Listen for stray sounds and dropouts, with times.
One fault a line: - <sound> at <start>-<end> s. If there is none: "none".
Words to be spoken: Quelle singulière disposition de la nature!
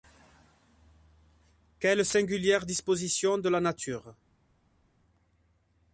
none